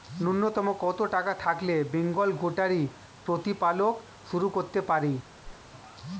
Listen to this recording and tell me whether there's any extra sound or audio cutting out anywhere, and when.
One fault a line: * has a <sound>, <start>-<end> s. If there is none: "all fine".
* has a whoosh, 5.4-5.6 s